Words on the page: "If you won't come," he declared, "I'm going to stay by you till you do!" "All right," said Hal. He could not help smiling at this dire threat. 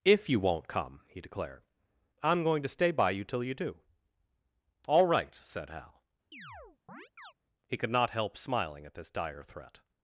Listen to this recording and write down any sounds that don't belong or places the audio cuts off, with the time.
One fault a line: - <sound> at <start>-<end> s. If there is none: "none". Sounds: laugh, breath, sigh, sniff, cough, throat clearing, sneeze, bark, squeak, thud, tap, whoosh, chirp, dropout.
- chirp at 6.3-7.3 s